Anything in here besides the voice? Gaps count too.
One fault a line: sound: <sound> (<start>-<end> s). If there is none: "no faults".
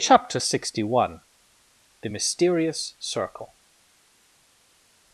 no faults